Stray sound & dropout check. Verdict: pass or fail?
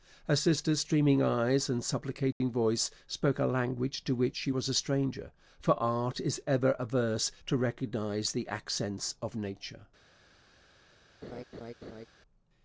fail